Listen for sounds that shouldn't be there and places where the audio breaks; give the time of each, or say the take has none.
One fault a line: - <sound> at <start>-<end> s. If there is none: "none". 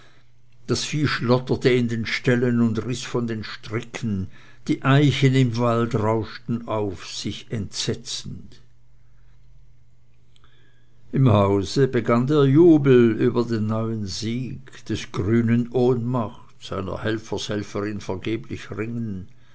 none